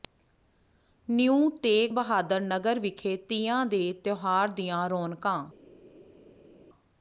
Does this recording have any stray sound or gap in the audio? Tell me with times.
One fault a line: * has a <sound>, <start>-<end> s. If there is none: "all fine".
all fine